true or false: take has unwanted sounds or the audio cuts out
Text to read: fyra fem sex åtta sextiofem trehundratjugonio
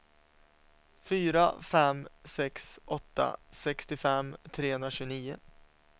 false